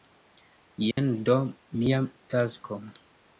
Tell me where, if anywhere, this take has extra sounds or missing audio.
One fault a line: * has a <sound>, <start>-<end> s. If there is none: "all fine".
* has a dropout, 0.9-1.0 s